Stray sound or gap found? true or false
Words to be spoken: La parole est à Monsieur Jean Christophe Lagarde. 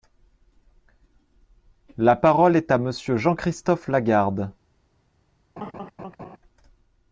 true